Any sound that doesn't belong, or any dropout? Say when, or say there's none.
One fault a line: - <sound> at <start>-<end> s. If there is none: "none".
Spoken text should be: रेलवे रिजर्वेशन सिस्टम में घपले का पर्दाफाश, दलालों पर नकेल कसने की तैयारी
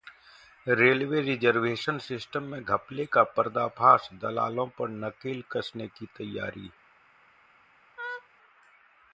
- laugh at 8.0-8.3 s